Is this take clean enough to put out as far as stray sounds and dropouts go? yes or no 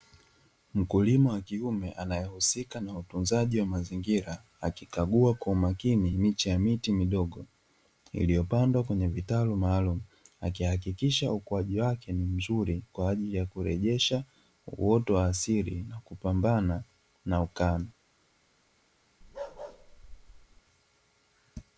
no